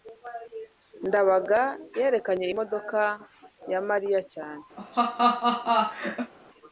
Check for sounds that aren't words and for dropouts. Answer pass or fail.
fail